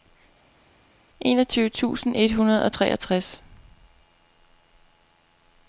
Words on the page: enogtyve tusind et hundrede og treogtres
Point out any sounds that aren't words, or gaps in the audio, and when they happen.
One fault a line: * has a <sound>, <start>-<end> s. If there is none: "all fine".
all fine